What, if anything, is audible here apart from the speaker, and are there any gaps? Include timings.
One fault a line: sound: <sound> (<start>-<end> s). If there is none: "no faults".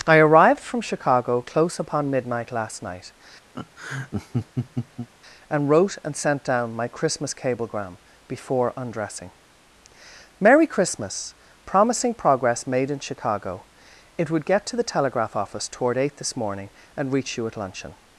sound: laugh (3.5-5.1 s)